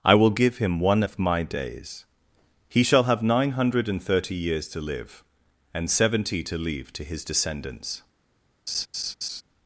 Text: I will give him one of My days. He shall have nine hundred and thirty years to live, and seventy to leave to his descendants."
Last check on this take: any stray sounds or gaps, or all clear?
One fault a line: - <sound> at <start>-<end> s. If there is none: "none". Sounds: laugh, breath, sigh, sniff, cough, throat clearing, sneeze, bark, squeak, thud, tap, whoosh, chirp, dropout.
- laugh at 8.7-9.4 s